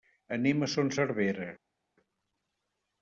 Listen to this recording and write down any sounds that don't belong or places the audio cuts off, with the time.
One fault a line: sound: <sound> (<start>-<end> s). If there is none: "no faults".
no faults